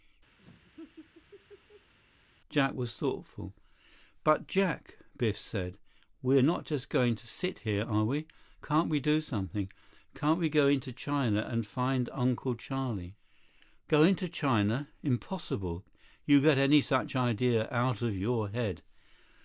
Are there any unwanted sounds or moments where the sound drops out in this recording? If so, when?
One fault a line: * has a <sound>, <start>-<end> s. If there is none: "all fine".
* has a laugh, 0.4-1.9 s